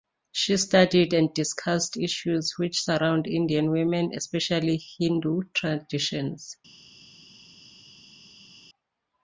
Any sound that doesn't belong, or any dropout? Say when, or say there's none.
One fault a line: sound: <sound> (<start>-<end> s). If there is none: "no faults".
no faults